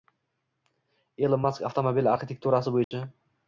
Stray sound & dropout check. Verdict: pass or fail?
fail